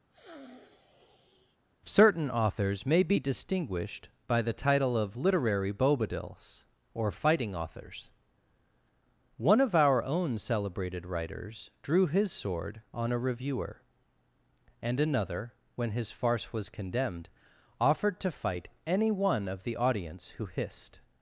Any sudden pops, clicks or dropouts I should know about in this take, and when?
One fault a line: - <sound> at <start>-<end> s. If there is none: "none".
- sniff at 0.1-1.6 s